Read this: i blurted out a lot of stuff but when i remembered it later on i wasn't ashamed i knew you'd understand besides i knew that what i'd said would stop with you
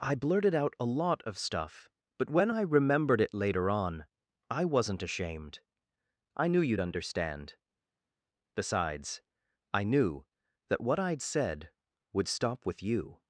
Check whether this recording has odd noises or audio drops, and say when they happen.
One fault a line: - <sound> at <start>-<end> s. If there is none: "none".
none